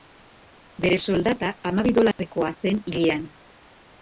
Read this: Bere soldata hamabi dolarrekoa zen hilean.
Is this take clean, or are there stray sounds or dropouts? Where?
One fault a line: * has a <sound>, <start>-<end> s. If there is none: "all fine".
* has a dropout, 2.1-2.2 s